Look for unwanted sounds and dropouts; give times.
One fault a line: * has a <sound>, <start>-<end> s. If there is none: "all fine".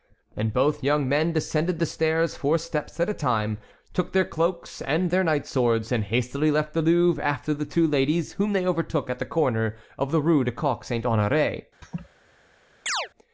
* has a laugh, 11.8-12.1 s
* has a chirp, 12.9-13.1 s